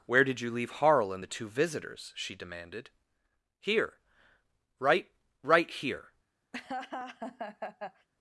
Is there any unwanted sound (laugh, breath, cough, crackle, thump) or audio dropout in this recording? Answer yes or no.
yes